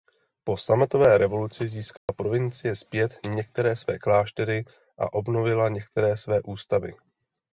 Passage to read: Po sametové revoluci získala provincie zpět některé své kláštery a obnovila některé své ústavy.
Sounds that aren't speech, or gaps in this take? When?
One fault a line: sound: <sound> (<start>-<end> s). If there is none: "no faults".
sound: dropout (2.0-2.1 s)